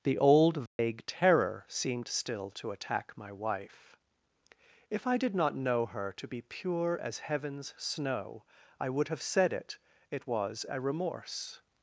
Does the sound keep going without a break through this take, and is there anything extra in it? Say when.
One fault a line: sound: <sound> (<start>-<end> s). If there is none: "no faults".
sound: dropout (0.7-0.8 s)